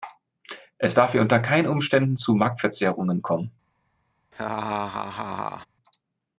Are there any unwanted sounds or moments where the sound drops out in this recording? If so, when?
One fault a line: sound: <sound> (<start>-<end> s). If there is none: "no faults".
sound: laugh (4.3-5.7 s)